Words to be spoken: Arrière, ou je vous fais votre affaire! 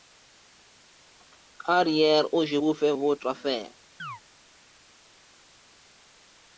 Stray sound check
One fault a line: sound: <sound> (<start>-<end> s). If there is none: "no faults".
sound: chirp (4.0-4.2 s)